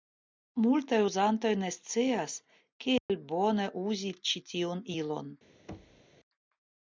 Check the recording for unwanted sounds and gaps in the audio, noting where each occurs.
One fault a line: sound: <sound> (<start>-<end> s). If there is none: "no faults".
sound: dropout (3.0-3.1 s)
sound: thud (5.7-6.1 s)